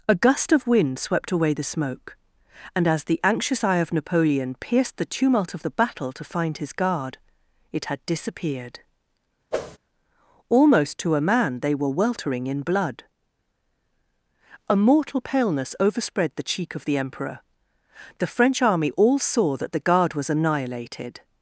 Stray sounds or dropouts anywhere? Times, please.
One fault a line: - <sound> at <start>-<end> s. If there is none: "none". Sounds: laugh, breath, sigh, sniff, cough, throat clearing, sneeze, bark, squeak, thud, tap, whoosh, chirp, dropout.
- whoosh at 9.5-9.8 s